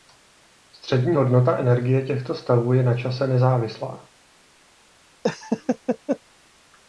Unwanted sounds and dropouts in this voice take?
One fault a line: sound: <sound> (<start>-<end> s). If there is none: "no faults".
sound: laugh (5.2-6.2 s)